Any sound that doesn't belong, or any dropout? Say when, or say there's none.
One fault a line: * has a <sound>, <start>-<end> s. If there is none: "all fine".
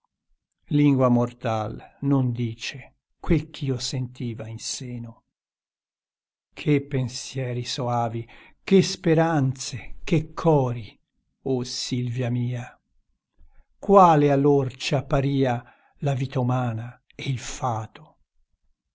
all fine